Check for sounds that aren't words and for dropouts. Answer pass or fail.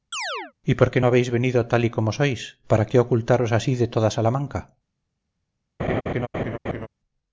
fail